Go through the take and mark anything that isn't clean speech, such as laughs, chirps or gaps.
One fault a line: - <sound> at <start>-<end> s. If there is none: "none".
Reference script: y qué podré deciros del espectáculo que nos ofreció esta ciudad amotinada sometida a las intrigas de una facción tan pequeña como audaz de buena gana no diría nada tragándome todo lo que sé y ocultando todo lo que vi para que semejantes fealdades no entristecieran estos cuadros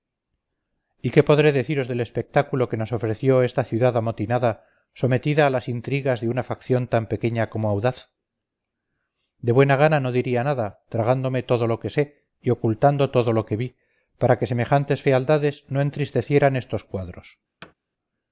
- thud at 17.6-17.7 s